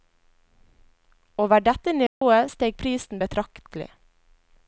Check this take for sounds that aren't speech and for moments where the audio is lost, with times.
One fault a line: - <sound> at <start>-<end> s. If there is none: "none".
- dropout at 2.1-2.2 s